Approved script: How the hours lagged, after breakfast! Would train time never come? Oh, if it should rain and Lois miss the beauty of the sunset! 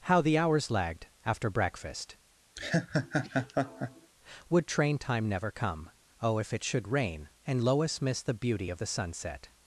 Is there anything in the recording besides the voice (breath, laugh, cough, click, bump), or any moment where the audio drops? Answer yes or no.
yes